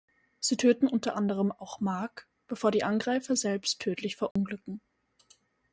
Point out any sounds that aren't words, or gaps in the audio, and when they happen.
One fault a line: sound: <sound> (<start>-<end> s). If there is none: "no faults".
sound: dropout (4.3-4.4 s)